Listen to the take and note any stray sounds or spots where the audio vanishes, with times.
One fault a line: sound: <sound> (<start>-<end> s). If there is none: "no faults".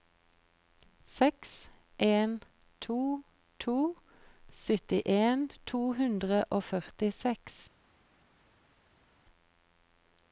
no faults